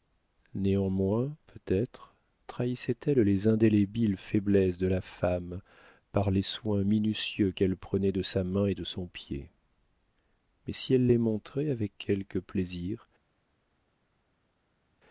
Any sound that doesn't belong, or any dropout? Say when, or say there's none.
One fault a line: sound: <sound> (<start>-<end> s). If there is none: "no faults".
no faults